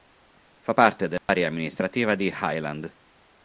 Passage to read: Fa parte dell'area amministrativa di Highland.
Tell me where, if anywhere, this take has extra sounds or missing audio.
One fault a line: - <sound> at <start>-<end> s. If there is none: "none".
- dropout at 1.2-1.3 s